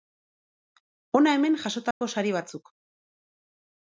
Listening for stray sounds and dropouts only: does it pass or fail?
fail